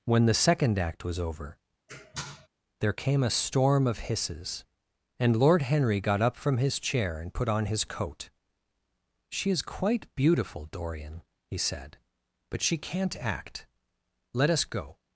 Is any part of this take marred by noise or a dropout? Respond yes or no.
yes